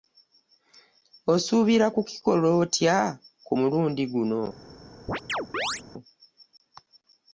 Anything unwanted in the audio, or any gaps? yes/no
yes